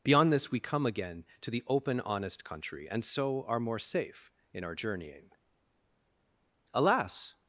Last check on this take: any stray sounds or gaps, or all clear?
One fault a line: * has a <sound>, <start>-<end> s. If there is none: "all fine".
all fine